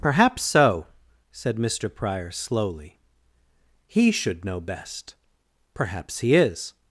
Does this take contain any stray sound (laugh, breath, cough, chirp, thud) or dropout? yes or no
no